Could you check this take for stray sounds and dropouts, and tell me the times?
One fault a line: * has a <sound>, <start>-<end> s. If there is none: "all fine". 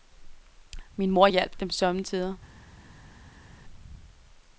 all fine